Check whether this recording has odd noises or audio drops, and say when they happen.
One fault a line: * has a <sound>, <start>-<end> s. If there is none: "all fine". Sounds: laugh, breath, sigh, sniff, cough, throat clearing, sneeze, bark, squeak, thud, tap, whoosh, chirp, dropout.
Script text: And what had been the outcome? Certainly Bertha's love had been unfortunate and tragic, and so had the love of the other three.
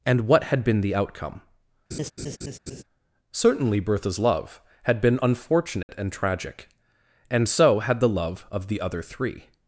* has a laugh, 1.9-2.8 s
* has a dropout, 5.8-5.9 s